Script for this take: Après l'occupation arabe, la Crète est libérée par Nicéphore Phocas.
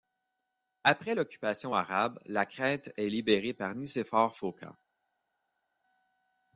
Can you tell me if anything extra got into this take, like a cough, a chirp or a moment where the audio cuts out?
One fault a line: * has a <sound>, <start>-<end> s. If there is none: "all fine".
all fine